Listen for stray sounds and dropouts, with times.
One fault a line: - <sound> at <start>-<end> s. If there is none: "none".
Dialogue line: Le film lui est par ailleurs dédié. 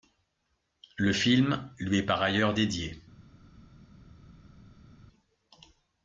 none